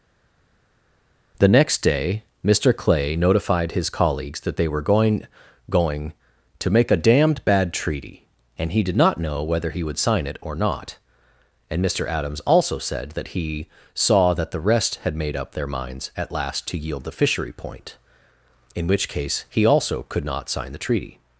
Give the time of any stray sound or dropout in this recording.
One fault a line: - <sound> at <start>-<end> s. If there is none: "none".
none